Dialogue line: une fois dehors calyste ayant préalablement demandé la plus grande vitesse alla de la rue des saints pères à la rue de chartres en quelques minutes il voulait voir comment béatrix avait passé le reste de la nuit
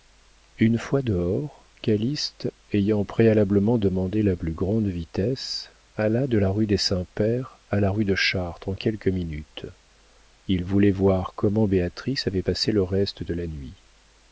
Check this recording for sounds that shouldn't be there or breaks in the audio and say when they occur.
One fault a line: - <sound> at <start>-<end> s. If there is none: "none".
none